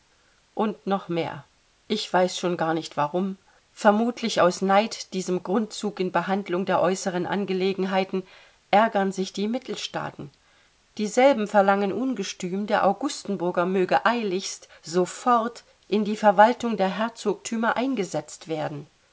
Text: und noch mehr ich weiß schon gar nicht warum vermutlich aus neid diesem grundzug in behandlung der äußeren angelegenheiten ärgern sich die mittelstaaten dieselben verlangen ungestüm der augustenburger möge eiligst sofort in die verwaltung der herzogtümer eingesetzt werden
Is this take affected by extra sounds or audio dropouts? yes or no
no